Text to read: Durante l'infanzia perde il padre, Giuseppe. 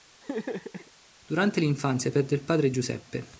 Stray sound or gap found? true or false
true